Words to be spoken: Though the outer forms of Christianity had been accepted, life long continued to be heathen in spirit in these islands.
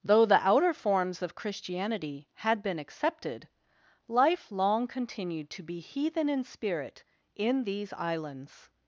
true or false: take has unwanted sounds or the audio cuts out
false